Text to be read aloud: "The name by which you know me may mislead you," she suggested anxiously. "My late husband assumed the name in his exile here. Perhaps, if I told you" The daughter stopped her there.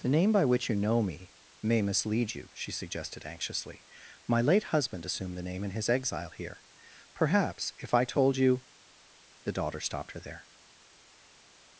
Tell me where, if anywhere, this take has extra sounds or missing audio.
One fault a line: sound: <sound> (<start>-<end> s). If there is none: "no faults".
no faults